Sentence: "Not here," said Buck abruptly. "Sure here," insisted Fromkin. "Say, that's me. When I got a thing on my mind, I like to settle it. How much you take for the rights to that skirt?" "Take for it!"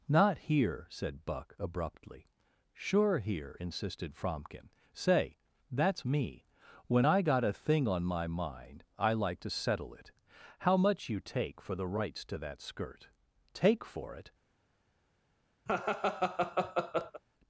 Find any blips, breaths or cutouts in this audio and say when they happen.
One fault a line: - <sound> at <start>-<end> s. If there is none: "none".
- laugh at 15.7-17.2 s